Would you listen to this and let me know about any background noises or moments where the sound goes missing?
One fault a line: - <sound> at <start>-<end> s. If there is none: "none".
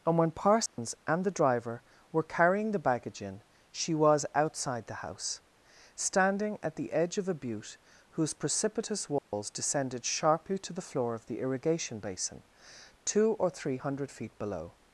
- dropout at 0.7-0.8 s
- dropout at 9.2-9.3 s